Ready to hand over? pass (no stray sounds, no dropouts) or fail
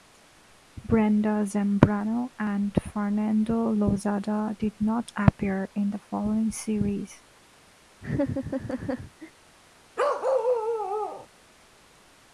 fail